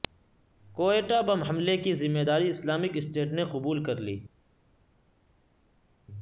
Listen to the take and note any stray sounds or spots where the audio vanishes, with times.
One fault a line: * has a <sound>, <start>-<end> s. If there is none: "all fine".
all fine